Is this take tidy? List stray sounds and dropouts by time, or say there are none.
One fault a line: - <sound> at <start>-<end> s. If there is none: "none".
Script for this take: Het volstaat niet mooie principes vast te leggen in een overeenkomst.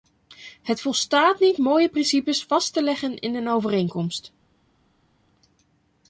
none